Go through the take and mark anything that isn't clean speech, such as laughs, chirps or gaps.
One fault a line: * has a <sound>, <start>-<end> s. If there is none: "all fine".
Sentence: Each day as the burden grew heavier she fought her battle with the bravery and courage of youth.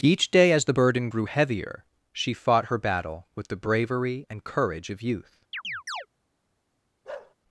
* has a chirp, 5.5-6.1 s
* has a bark, 7.0-7.3 s